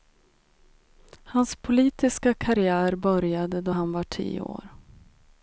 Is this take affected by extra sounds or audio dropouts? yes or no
no